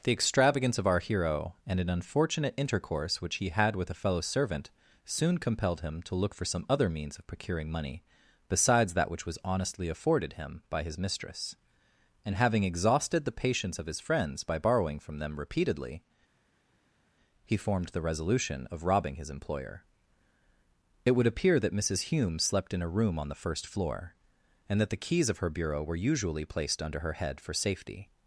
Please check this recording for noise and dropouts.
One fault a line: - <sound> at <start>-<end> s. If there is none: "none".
none